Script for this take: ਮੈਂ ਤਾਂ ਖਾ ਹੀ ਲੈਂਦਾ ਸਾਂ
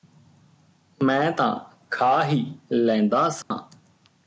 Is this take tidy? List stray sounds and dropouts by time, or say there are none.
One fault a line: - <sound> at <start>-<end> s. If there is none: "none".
- dropout at 3.4-3.5 s